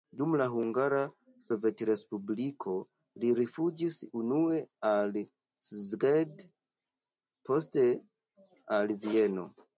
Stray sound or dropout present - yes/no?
no